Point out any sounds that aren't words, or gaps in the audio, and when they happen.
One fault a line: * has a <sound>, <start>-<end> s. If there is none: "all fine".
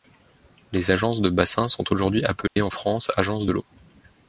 * has a dropout, 2.5-2.6 s